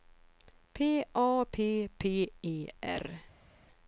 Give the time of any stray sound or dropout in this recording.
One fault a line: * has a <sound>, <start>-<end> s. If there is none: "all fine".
all fine